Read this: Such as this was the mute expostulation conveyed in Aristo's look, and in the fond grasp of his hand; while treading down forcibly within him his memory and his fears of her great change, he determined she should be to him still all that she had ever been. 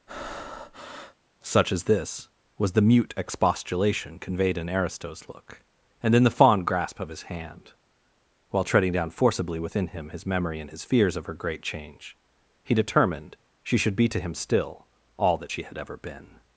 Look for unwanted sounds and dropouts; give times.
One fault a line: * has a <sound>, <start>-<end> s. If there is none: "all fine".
* has a breath, 0.1-1.2 s